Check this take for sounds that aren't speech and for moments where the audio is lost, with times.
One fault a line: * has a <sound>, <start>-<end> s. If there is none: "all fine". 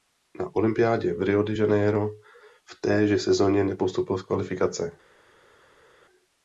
all fine